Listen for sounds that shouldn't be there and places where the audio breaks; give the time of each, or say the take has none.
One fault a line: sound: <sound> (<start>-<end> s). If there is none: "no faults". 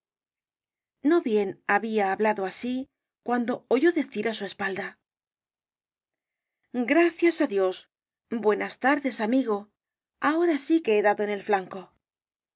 no faults